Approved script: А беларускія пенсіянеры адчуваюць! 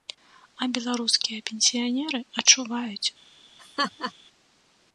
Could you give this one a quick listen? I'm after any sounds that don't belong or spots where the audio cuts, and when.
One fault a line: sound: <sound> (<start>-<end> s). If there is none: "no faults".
sound: laugh (3.6-4.1 s)